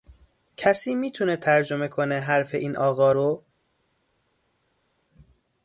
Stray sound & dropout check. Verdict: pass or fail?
pass